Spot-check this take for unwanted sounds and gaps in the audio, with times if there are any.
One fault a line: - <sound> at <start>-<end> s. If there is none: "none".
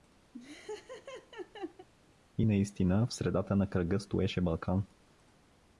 - laugh at 0.3-1.9 s